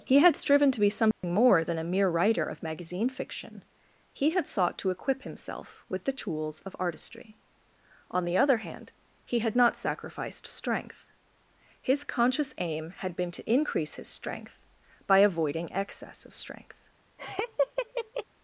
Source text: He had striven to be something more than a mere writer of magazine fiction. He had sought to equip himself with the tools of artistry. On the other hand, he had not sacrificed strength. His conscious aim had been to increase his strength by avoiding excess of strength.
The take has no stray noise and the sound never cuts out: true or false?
false